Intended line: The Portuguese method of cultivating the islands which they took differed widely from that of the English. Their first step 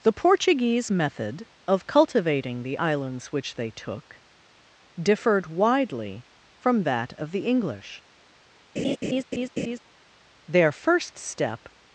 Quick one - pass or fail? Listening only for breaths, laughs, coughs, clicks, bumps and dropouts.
fail